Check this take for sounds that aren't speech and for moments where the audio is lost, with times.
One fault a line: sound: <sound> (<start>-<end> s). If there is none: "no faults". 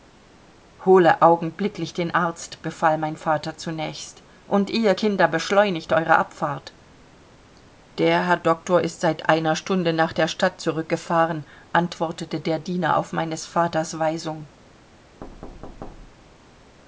sound: thud (15.2-16.5 s)